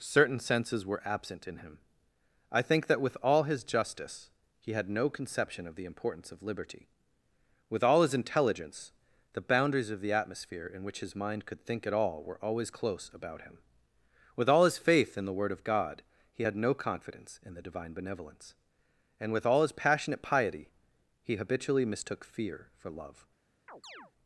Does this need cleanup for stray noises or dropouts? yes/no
yes